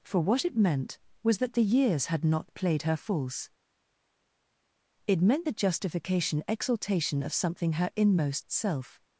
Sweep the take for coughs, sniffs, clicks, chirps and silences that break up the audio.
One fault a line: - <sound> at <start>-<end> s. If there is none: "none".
none